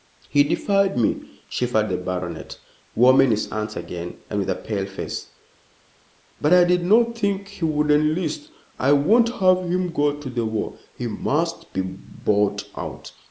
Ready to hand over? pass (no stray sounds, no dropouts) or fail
pass